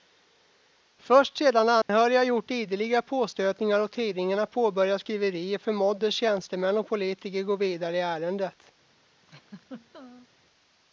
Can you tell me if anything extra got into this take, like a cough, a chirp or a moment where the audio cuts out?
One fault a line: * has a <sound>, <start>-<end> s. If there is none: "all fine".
* has a dropout, 1.8-1.9 s
* has a laugh, 9.2-10.3 s